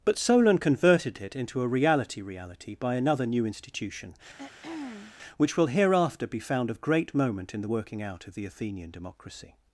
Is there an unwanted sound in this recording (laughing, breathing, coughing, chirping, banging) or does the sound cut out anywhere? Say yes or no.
yes